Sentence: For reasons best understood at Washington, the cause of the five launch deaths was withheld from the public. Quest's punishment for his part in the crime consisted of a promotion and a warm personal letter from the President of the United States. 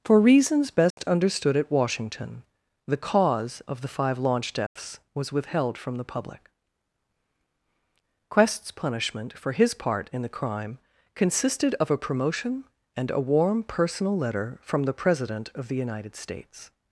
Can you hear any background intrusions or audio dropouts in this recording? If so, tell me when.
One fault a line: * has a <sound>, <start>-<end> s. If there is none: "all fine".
* has a dropout, 0.9-1.0 s
* has a dropout, 4.7-4.8 s